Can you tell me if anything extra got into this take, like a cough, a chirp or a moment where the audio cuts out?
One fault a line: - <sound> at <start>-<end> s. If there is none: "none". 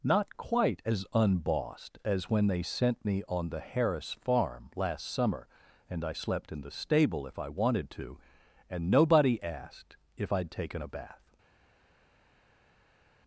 none